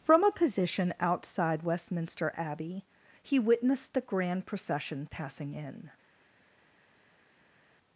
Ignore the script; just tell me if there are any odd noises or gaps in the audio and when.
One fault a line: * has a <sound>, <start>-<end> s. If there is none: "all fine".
all fine